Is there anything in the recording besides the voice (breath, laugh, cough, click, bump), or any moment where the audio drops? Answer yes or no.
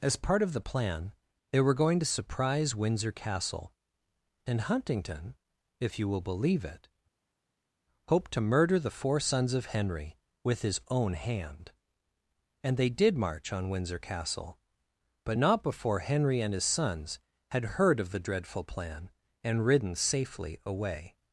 no